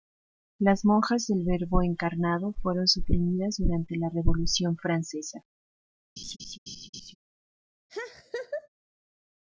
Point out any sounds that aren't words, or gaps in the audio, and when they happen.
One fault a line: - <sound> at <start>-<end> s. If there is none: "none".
- laugh at 6.2-7.2 s
- laugh at 7.9-8.7 s